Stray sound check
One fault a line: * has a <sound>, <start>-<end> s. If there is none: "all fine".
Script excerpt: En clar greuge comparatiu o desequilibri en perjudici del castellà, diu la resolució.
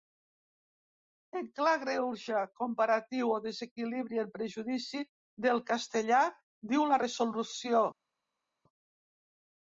all fine